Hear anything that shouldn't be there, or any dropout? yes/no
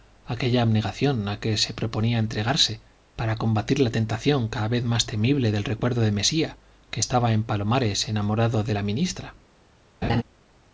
yes